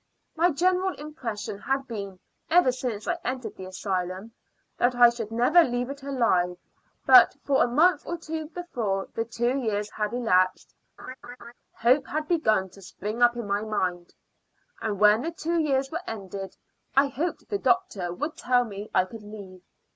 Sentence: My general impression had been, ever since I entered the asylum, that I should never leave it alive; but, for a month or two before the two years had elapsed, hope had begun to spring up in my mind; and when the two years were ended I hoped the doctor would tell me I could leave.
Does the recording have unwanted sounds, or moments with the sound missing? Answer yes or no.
yes